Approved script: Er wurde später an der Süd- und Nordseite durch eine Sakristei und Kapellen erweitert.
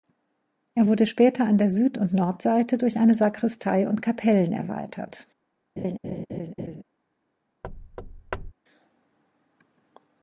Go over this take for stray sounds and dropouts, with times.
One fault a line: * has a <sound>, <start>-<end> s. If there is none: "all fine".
* has a laugh, 5.8-6.8 s
* has a thud, 7.6-8.5 s